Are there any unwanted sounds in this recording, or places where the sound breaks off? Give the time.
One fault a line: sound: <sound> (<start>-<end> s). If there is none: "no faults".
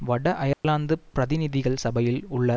sound: dropout (0.5-0.6 s)